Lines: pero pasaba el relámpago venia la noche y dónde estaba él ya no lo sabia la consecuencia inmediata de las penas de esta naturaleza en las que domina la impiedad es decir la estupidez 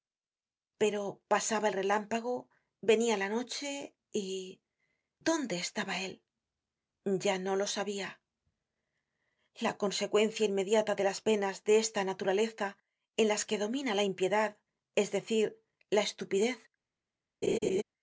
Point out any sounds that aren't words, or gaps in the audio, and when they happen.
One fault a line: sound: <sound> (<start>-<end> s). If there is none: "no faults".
sound: laugh (17.4-17.8 s)